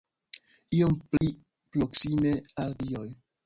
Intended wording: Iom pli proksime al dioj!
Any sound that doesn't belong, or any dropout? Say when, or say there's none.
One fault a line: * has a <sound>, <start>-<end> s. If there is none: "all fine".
* has a dropout, 1.2-1.2 s